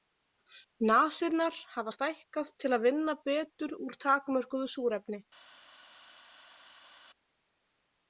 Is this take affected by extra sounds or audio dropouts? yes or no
no